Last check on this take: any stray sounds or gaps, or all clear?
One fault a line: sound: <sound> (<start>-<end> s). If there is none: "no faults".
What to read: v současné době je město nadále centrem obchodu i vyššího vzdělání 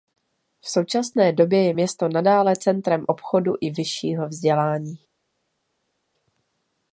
no faults